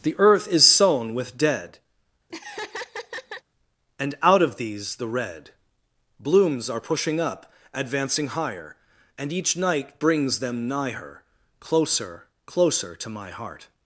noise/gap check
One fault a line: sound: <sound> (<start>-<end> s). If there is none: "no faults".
sound: laugh (2.3-3.4 s)